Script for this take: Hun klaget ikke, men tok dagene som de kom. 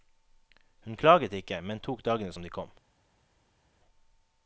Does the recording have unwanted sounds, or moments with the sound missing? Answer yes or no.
no